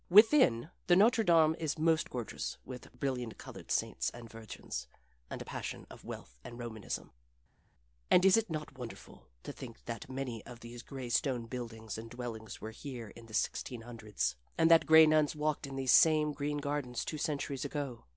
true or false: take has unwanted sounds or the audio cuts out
false